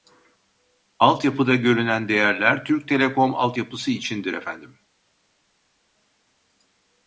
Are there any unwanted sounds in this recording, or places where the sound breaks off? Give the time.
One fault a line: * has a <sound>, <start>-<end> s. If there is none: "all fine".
all fine